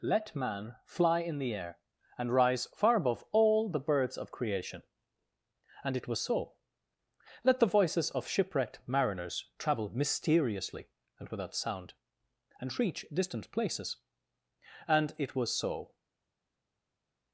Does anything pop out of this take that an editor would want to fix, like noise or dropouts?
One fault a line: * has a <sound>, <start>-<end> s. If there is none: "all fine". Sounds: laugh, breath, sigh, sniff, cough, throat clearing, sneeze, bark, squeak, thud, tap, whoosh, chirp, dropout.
all fine